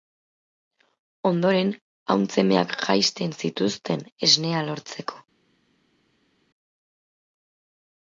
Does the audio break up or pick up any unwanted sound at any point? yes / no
no